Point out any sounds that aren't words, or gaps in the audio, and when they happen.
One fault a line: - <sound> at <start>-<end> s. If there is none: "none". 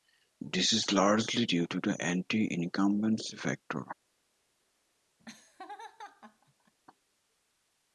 - laugh at 5.2-6.7 s